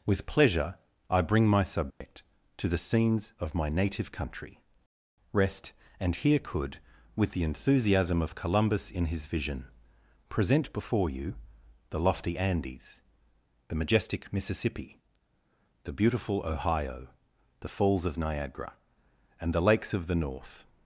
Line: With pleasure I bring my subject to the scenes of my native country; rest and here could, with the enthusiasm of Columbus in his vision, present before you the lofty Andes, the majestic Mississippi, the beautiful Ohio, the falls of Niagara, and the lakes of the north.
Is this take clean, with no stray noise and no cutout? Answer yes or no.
no